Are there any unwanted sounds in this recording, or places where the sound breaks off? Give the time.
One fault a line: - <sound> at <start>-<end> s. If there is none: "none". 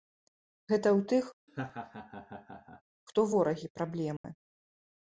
- laugh at 1.5-2.8 s
- dropout at 4.2-4.2 s